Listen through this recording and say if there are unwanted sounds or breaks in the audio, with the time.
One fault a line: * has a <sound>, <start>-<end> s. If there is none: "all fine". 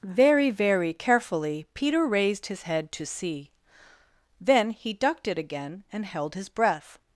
all fine